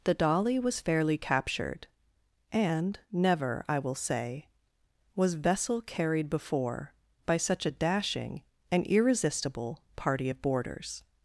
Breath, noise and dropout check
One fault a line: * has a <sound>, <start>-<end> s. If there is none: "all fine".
all fine